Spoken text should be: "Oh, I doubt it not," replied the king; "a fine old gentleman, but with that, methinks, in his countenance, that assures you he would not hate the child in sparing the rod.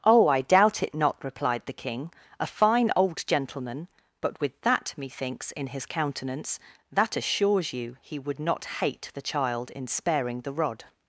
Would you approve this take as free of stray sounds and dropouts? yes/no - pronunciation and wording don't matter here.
yes